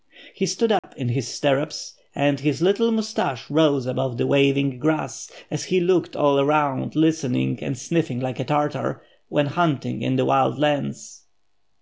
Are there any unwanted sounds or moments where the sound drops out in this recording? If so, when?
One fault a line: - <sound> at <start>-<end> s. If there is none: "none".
- dropout at 0.8-0.8 s